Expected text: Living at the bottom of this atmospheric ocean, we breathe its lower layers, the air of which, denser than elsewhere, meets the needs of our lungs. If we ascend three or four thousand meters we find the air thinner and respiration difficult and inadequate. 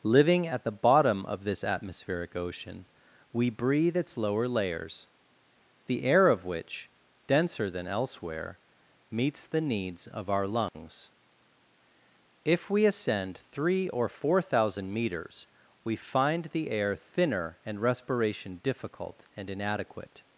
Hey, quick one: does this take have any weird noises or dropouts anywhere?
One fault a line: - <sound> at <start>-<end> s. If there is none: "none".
- dropout at 10.7-10.7 s